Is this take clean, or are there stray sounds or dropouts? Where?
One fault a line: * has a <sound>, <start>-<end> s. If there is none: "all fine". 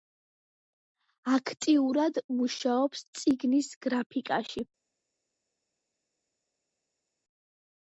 all fine